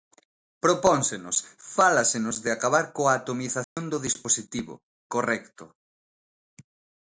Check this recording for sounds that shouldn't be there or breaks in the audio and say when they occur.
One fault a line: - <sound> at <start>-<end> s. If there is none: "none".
- dropout at 3.6-3.8 s